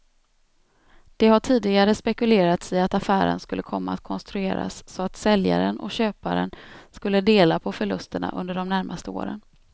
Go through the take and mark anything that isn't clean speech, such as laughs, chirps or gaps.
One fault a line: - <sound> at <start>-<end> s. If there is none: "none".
none